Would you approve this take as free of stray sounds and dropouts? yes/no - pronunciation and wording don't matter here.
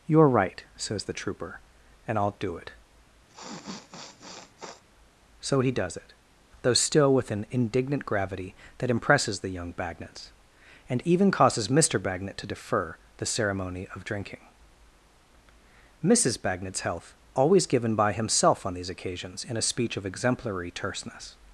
no